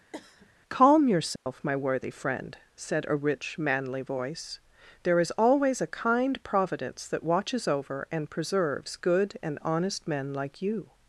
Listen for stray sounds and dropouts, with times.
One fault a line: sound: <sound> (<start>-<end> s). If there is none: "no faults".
sound: cough (0.1-0.5 s)
sound: dropout (1.4-1.5 s)